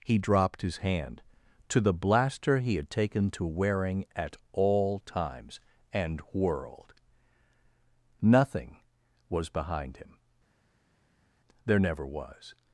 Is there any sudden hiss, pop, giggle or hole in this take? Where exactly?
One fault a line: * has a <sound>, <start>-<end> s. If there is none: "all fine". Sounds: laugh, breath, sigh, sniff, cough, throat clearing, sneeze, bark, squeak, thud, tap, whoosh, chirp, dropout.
all fine